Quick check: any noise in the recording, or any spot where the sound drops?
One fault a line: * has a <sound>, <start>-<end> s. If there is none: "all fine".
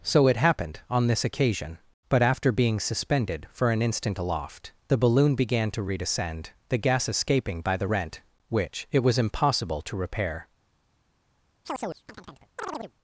* has a chirp, 11.6-12.9 s